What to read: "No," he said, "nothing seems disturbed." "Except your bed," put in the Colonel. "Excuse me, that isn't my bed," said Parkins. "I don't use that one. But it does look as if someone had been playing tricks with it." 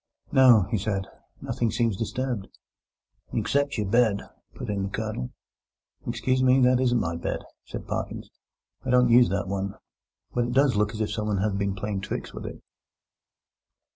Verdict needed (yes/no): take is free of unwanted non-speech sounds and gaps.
yes